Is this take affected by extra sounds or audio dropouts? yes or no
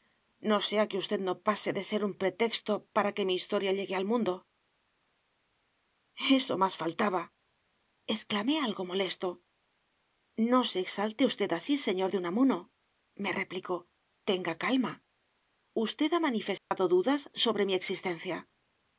yes